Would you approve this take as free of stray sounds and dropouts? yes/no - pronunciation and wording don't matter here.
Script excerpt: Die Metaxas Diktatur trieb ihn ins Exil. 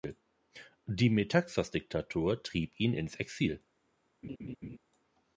no